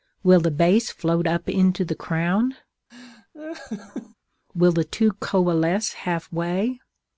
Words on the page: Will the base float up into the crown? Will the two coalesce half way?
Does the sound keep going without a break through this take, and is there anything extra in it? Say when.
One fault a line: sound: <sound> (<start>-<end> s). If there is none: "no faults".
sound: laugh (2.9-4.1 s)